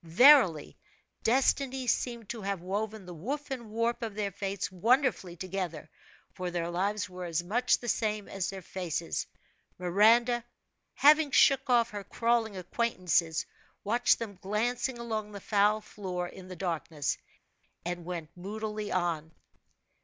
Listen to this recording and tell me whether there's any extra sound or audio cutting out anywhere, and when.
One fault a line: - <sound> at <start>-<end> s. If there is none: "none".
none